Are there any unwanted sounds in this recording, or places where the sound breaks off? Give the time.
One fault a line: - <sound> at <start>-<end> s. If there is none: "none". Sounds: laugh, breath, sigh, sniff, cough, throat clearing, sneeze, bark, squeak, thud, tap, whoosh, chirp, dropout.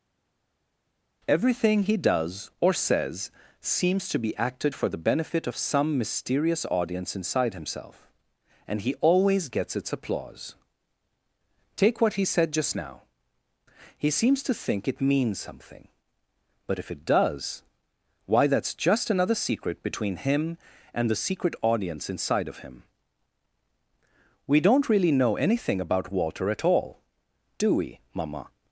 none